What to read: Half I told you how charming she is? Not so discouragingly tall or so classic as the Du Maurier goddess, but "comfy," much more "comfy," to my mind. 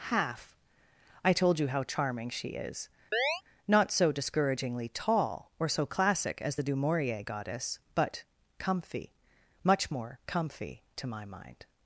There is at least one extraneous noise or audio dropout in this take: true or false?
true